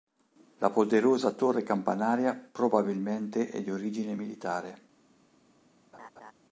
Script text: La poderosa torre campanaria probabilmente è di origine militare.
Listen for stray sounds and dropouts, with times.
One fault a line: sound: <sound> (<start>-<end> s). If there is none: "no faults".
sound: laugh (5.9-6.3 s)